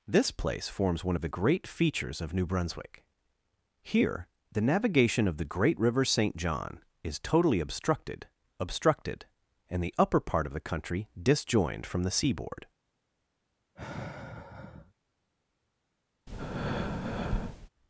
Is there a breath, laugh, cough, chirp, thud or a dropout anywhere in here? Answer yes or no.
yes